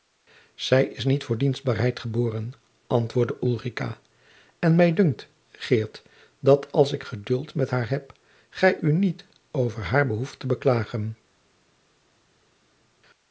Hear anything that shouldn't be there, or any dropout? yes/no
no